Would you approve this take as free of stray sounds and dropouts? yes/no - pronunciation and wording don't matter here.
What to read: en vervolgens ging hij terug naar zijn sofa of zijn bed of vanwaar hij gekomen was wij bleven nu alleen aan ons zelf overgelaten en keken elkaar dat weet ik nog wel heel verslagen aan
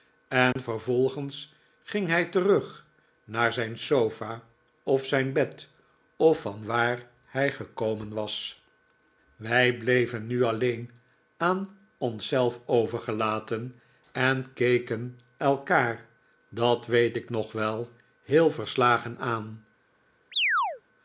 no